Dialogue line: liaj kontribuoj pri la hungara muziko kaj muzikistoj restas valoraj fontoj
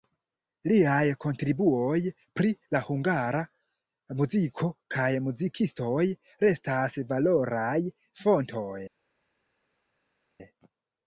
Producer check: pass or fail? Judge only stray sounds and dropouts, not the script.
pass